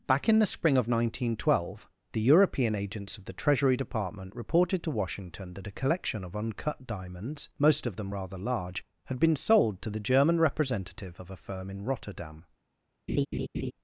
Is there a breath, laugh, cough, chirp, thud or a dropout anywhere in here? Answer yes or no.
yes